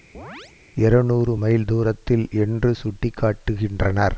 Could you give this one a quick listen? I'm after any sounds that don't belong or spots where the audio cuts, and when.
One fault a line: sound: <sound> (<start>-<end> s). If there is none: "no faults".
sound: chirp (0.1-0.5 s)